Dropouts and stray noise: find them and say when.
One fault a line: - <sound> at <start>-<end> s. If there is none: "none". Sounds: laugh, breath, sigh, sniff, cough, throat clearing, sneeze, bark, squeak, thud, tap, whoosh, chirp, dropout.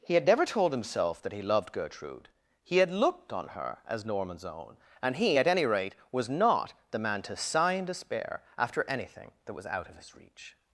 none